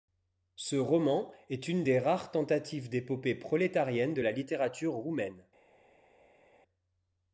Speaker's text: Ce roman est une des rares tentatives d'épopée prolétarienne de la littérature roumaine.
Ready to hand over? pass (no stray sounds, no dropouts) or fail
pass